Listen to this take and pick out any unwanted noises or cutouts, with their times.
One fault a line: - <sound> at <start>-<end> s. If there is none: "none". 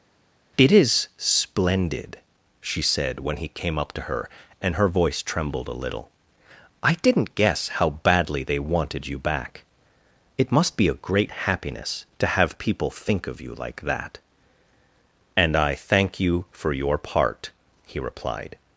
none